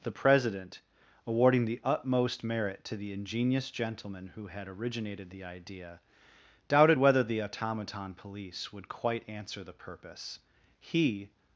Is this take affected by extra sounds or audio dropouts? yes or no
no